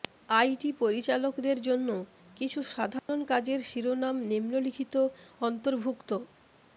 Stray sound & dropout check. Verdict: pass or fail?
fail